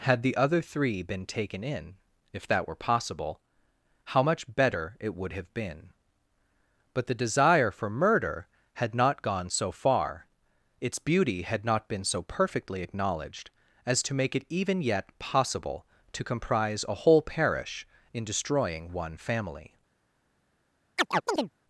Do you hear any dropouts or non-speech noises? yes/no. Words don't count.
yes